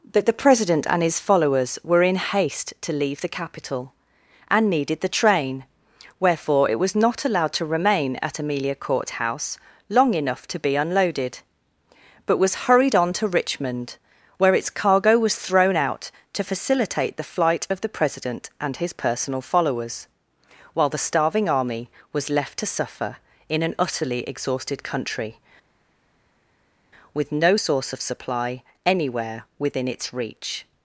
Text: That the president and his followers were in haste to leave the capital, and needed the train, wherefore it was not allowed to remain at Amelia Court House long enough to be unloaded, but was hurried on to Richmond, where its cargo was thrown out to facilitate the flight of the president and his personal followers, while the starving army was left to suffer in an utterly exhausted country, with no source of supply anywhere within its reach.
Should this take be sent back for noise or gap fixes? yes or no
no